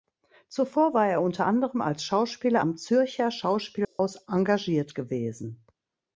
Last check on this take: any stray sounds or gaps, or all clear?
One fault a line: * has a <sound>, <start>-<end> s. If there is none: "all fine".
* has a dropout, 3.8-4.0 s